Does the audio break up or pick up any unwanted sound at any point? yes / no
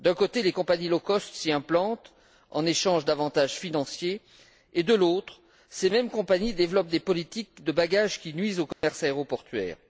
yes